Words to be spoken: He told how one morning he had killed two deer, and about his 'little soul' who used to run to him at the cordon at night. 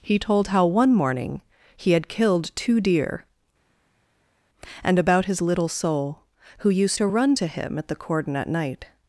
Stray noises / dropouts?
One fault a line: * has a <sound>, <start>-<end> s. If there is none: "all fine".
all fine